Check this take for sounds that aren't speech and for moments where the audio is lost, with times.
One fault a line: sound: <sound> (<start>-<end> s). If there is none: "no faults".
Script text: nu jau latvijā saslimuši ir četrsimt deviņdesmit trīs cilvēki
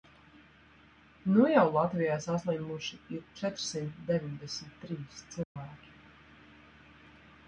sound: dropout (5.4-5.6 s)